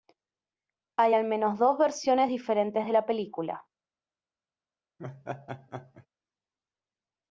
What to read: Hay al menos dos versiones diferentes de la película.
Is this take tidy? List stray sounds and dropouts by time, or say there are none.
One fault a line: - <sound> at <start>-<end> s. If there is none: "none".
- laugh at 5.0-6.1 s